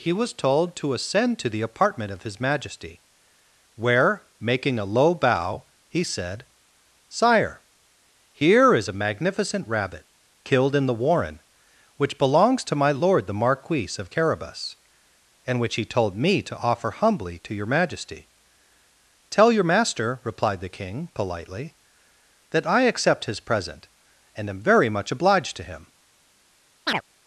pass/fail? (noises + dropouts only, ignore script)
fail